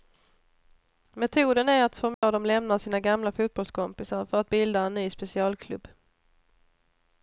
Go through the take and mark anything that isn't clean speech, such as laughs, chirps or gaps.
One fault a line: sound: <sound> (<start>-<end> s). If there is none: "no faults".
sound: dropout (2.1-2.2 s)